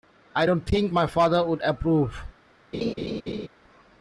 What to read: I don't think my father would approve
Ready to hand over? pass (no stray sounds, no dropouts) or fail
fail